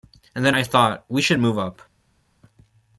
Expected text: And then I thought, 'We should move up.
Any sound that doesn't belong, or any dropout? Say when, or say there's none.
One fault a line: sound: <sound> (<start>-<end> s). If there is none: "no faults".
no faults